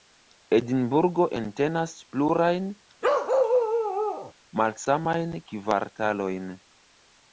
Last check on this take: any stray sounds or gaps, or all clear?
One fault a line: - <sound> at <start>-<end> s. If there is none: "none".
- bark at 3.0-4.3 s